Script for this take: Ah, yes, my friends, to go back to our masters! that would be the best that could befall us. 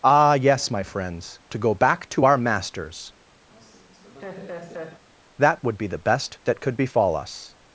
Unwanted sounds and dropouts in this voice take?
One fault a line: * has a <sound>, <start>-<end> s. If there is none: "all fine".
* has a laugh, 3.5-5.0 s